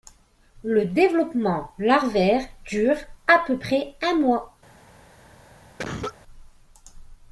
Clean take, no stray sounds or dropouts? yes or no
no